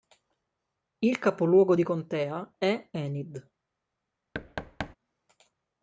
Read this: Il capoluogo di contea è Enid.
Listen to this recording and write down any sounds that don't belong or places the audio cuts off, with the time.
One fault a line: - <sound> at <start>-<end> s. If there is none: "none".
- thud at 4.3-5.0 s